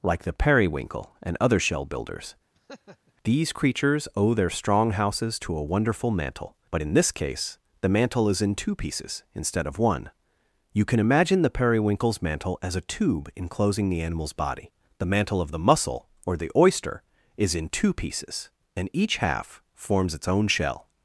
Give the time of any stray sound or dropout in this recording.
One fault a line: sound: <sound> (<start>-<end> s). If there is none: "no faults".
sound: laugh (2.5-3.1 s)